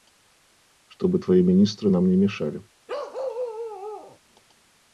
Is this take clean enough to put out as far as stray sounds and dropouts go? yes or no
no